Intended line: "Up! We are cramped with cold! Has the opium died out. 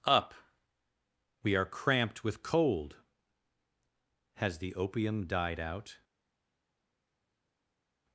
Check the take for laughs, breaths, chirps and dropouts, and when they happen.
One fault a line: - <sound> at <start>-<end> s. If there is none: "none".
none